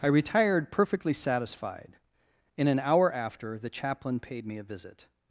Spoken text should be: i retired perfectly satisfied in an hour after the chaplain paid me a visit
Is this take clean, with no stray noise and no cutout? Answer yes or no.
yes